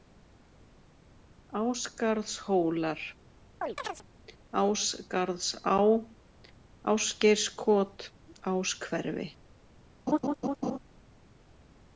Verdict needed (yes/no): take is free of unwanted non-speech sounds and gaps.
no